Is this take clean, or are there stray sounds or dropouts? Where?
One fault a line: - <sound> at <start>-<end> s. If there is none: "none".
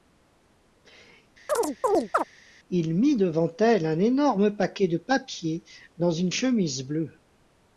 - chirp at 1.5-2.2 s